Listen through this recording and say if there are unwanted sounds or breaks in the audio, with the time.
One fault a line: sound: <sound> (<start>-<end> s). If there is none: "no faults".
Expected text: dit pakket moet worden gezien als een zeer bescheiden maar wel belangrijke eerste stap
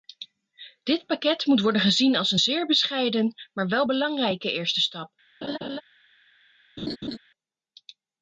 sound: laugh (5.4-5.8 s)
sound: laugh (6.8-7.2 s)